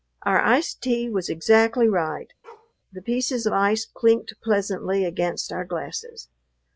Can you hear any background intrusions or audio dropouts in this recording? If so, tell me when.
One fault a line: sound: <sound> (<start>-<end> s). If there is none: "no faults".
sound: bark (2.4-2.7 s)